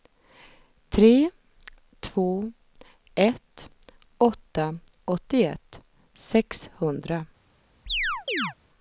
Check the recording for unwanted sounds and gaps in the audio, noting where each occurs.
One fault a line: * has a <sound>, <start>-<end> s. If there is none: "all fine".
* has a chirp, 7.9-8.5 s